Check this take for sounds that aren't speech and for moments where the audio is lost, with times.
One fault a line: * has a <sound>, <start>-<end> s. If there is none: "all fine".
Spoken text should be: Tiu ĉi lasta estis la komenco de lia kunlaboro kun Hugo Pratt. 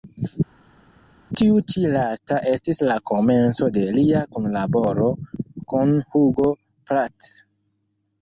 all fine